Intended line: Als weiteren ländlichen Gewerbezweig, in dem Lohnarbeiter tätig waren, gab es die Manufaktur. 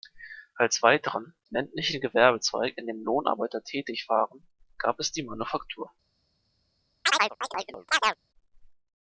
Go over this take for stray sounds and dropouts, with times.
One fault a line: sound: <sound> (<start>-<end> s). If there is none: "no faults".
sound: chirp (7.0-8.2 s)